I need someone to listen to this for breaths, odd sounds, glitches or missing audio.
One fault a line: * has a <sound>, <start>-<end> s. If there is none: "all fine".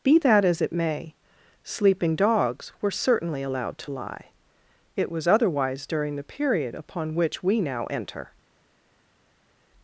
all fine